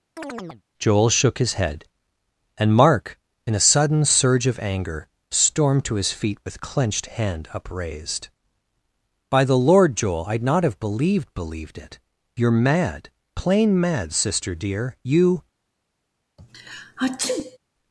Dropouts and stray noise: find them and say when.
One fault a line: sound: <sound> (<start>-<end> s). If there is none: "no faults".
sound: chirp (0.2-0.6 s)
sound: sneeze (16.4-17.6 s)